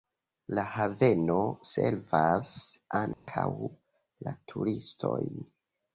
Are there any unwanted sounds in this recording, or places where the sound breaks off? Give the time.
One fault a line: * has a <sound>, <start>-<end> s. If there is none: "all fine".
* has a dropout, 3.1-3.3 s